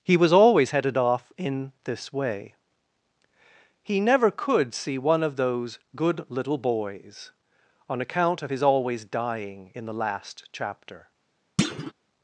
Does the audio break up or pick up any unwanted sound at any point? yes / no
yes